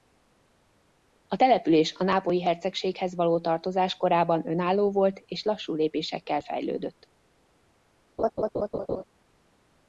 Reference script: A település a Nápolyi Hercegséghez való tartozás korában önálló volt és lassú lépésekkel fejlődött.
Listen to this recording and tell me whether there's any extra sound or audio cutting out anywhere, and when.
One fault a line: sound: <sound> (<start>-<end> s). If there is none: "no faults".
sound: laugh (8.2-9.0 s)